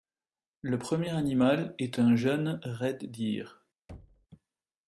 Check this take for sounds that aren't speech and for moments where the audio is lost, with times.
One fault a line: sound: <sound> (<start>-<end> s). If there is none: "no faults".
sound: thud (3.9-4.3 s)